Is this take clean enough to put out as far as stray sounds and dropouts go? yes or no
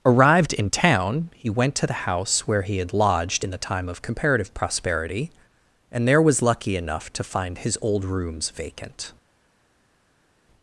yes